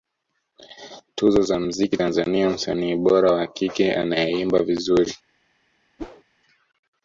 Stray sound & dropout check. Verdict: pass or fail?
fail